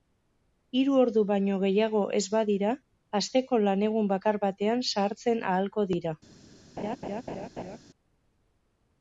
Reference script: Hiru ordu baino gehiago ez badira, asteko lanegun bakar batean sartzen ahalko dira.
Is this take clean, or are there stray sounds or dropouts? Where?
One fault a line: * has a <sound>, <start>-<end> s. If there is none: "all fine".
* has a laugh, 6.8-7.8 s